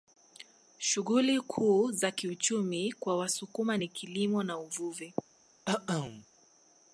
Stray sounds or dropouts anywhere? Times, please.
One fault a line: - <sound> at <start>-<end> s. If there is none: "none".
- cough at 5.7-6.3 s